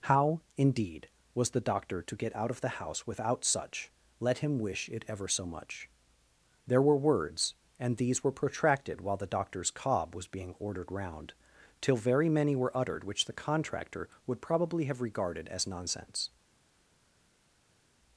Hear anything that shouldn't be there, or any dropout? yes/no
no